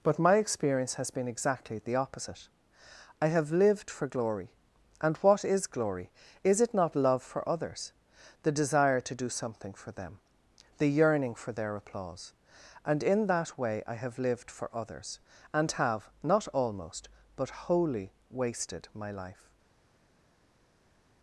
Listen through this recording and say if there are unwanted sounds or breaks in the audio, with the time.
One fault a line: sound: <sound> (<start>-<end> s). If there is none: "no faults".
no faults